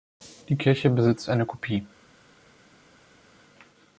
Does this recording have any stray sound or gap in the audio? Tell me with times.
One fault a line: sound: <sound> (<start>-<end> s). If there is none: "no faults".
no faults